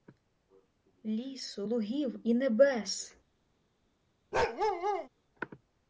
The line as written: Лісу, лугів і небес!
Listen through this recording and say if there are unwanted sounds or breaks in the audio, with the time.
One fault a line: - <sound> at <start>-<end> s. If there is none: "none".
- bark at 4.3-5.1 s